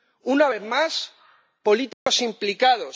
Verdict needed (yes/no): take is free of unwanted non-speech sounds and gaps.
no